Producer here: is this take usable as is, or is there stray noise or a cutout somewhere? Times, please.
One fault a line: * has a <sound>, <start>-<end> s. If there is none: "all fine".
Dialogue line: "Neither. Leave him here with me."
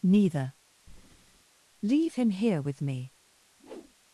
* has a breath, 0.9-1.4 s
* has a whoosh, 3.6-3.9 s